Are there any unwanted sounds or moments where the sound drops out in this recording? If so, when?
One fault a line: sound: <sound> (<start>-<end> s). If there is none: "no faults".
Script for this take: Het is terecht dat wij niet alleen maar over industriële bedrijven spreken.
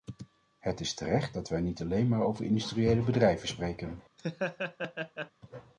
sound: laugh (4.2-5.3 s)